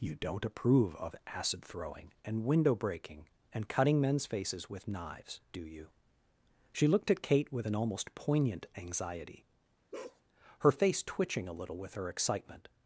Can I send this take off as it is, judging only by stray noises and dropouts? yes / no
no